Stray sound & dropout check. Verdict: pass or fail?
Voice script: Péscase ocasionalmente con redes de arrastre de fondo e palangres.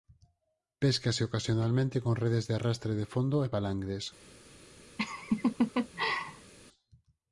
fail